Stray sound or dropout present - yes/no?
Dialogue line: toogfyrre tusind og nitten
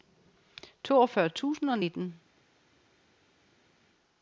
no